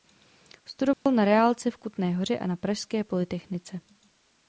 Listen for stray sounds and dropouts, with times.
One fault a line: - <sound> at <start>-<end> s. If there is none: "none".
- dropout at 0.9-1.1 s